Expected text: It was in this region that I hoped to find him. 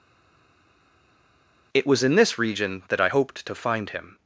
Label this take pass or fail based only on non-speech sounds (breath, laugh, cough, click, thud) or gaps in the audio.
pass